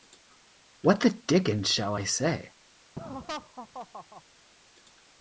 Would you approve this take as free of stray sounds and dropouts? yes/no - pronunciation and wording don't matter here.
no